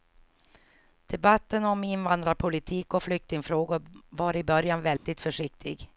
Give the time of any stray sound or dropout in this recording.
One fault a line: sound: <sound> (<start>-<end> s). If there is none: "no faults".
sound: dropout (5.0-5.1 s)